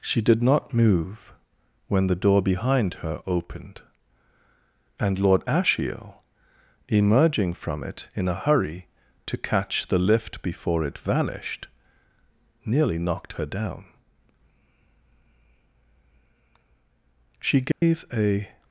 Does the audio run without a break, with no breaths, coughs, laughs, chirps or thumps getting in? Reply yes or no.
no